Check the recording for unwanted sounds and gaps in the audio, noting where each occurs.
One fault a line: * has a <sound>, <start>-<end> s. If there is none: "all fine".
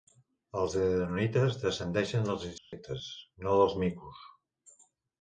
* has a dropout, 2.6-2.7 s